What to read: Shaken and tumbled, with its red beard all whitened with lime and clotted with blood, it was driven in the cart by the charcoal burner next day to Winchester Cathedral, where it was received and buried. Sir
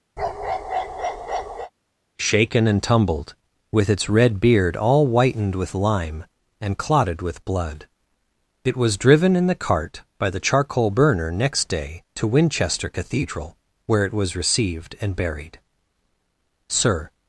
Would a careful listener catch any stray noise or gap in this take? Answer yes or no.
yes